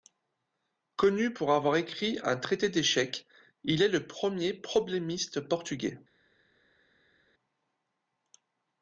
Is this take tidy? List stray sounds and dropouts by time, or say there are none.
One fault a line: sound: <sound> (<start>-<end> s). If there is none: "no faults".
no faults